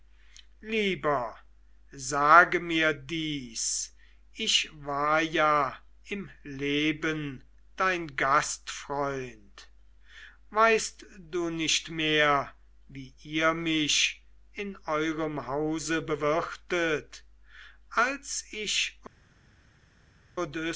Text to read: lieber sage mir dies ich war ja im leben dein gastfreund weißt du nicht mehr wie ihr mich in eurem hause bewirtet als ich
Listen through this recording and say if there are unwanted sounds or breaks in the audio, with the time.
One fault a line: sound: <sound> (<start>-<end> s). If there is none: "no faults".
no faults